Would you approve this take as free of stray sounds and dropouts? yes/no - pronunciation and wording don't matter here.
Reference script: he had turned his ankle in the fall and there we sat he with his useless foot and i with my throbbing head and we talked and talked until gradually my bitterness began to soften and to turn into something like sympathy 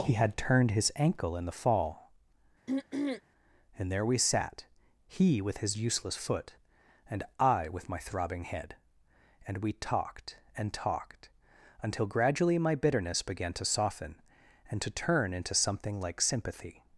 no